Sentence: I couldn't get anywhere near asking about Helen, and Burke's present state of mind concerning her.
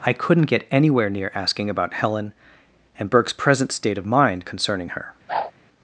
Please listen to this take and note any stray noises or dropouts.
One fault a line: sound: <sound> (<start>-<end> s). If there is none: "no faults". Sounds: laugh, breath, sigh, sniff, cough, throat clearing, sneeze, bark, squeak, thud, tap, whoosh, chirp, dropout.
sound: whoosh (5.3-5.5 s)